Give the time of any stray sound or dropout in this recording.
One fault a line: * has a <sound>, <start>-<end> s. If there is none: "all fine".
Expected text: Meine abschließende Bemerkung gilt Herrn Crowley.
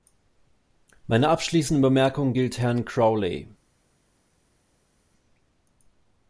all fine